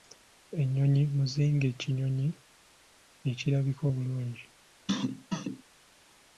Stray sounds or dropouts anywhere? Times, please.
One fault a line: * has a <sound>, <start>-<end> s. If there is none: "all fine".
* has a cough, 4.9-5.6 s